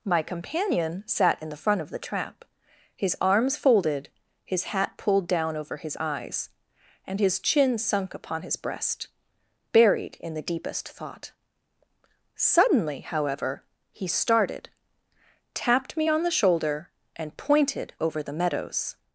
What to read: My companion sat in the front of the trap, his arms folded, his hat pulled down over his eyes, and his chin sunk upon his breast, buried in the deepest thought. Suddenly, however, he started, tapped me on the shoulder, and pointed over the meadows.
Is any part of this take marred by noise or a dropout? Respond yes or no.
no